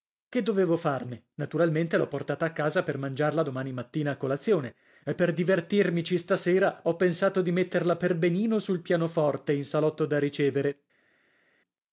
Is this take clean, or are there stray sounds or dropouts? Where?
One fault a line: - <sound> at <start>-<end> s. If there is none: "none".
none